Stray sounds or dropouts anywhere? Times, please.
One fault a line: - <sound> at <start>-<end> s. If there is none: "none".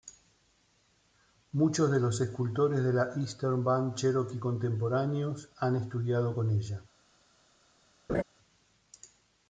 - laugh at 8.1-8.2 s